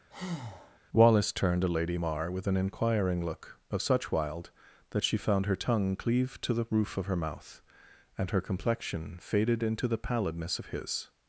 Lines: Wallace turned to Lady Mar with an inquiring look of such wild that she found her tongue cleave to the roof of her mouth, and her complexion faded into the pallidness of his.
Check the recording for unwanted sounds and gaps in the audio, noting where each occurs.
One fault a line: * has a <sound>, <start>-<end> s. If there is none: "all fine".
* has a breath, 0.1-0.8 s